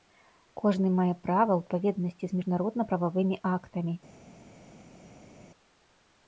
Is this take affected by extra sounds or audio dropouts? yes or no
no